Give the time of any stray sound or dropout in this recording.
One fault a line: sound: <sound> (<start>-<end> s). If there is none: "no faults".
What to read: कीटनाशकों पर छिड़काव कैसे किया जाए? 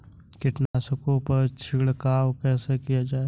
sound: dropout (0.7-0.7 s)